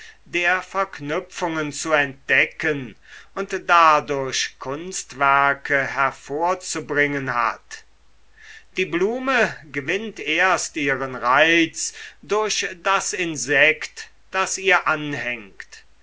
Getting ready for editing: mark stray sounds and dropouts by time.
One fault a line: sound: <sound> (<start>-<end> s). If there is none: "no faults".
no faults